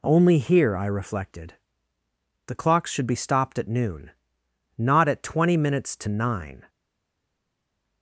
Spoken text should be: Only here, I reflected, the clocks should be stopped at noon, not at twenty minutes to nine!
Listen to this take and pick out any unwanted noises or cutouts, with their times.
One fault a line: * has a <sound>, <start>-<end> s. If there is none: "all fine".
all fine